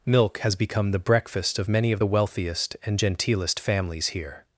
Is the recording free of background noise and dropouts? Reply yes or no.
yes